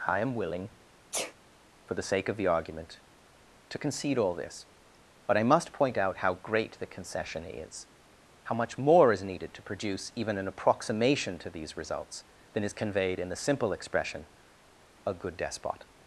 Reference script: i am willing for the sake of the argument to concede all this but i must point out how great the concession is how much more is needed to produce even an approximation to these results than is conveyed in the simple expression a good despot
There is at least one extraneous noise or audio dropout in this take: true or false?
true